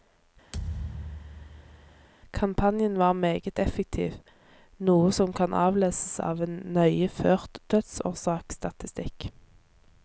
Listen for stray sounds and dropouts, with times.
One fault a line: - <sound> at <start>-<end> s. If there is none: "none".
- thud at 0.5-2.1 s